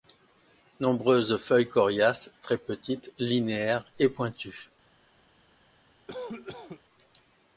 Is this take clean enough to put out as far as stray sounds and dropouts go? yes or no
no